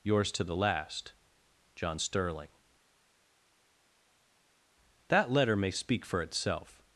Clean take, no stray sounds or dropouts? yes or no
yes